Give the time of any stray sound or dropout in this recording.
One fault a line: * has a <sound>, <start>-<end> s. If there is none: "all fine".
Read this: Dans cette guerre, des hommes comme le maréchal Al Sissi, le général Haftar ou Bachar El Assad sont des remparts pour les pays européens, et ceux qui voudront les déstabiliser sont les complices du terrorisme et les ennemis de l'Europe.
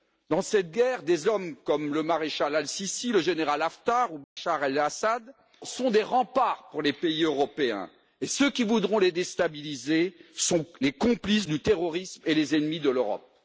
* has a dropout, 4.2-4.4 s